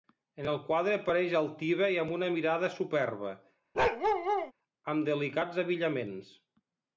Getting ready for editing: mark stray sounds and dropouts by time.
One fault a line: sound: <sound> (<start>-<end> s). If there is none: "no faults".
sound: bark (3.7-4.5 s)